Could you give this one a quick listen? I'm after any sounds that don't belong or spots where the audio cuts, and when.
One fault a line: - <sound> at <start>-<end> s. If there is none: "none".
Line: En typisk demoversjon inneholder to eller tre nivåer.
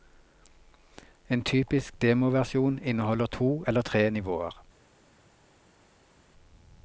none